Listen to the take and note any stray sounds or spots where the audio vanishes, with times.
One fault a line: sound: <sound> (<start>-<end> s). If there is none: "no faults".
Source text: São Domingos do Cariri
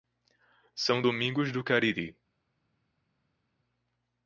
no faults